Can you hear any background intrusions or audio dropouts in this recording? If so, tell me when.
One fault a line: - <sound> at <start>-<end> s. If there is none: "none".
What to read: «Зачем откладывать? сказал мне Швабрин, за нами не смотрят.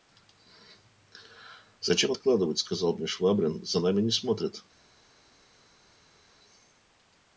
none